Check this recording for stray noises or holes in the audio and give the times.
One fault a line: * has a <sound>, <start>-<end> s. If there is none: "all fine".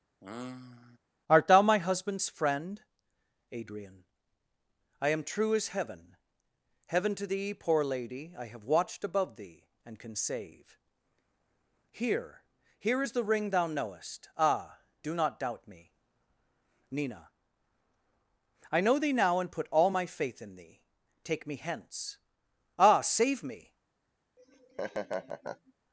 * has a sigh, 0.2-1.0 s
* has a laugh, 24.4-25.7 s